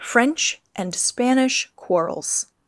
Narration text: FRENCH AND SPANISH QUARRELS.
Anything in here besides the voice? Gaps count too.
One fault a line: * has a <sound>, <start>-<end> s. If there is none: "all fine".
all fine